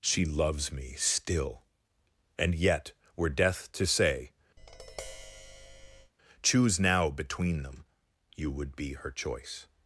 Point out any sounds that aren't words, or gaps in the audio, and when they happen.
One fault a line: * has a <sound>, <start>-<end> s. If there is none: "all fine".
* has a tap, 4.6-6.1 s